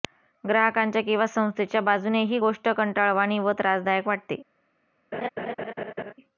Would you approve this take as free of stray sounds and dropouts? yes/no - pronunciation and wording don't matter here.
no